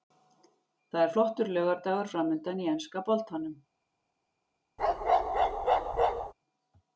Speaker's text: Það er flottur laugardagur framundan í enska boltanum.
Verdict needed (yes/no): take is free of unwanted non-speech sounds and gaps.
no